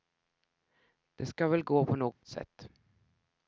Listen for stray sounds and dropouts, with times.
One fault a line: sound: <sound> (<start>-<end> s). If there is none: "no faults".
sound: dropout (2.1-2.2 s)